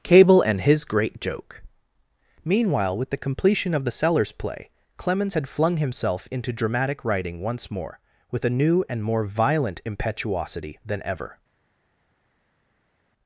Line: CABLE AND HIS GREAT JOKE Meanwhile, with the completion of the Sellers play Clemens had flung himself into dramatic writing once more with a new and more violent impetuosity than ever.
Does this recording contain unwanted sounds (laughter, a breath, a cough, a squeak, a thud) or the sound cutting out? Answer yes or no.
no